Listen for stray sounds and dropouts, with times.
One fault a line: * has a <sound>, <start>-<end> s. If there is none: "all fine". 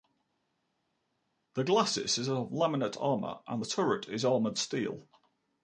all fine